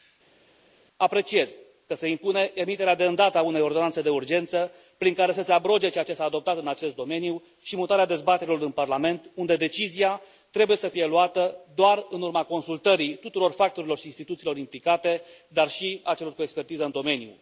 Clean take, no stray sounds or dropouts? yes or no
yes